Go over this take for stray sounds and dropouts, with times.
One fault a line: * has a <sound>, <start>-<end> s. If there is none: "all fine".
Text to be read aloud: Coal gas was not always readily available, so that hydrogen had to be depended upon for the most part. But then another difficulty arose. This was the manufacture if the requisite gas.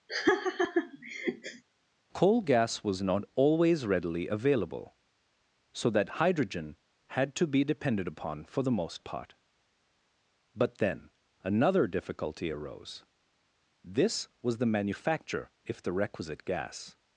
* has a laugh, 0.1-1.6 s